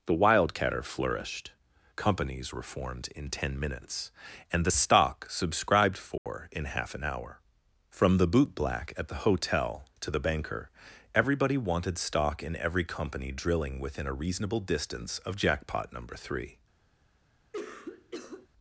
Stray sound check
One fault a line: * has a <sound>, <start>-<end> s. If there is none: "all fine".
* has a dropout, 6.2-6.3 s
* has a cough, 17.5-18.5 s